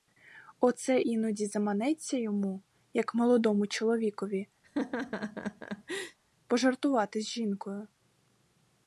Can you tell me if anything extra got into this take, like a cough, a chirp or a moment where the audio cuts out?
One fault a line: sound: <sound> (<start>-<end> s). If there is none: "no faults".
sound: laugh (4.6-6.2 s)